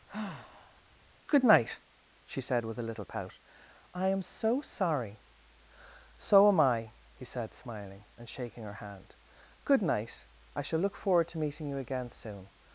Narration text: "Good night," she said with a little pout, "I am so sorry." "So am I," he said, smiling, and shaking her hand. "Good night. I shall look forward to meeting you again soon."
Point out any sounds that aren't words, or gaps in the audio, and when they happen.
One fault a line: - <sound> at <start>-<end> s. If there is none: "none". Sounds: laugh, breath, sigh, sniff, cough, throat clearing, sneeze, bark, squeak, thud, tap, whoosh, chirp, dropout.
- sigh at 0.1-0.8 s